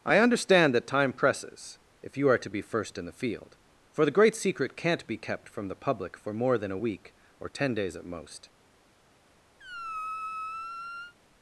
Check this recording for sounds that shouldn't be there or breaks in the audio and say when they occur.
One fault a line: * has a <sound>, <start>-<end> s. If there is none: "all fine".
* has a squeak, 9.6-11.1 s